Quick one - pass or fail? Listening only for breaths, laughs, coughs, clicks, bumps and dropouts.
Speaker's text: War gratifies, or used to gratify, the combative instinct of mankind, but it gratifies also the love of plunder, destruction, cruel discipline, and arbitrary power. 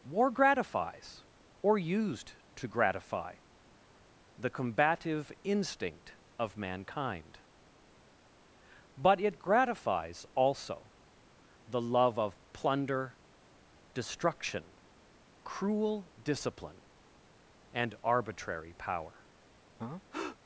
fail